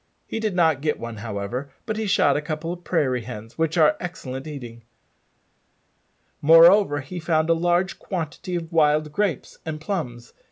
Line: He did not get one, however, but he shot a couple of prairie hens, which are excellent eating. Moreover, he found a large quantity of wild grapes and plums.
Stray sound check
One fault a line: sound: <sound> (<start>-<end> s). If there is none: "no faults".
no faults